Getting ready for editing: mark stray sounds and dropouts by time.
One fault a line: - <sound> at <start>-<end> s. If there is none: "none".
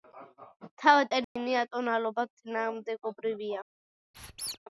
- dropout at 1.2-1.4 s
- squeak at 4.1-4.6 s